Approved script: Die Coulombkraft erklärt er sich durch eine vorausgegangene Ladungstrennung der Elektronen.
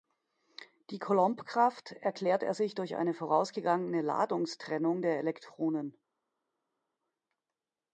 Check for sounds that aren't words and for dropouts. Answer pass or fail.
pass